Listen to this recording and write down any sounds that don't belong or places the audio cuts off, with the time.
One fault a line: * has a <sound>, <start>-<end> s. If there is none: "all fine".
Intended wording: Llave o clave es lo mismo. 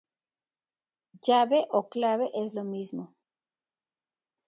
all fine